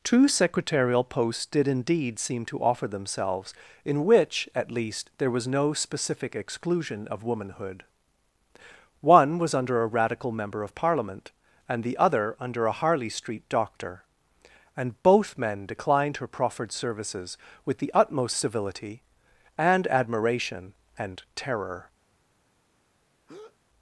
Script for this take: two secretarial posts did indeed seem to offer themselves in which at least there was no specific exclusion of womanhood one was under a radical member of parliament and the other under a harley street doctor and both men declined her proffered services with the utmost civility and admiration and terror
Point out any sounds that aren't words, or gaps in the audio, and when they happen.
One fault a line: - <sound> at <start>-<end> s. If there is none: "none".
- breath at 23.3-23.6 s